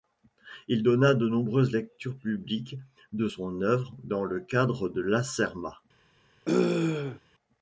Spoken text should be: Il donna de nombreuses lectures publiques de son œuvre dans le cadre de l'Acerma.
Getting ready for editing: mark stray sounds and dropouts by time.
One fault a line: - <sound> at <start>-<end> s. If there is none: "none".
- throat clearing at 6.4-7.2 s